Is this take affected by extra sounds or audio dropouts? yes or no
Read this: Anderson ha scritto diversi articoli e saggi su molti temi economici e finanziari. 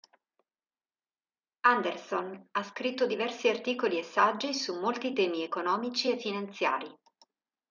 no